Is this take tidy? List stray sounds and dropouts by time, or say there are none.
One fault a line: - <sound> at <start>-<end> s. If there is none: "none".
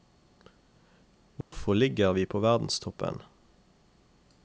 - dropout at 1.4-1.5 s